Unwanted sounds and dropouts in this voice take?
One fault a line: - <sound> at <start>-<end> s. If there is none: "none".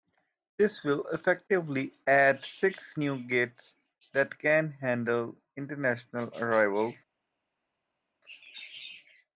none